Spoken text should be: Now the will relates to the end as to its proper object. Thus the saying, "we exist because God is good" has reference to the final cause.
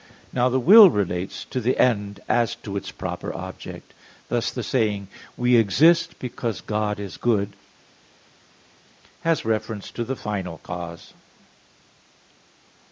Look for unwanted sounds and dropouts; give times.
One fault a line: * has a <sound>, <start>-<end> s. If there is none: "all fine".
all fine